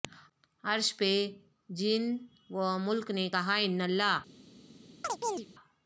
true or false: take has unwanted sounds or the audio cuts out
true